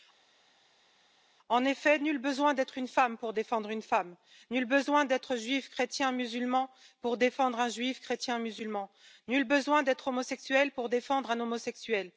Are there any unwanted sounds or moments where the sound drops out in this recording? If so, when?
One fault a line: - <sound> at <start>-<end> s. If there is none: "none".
none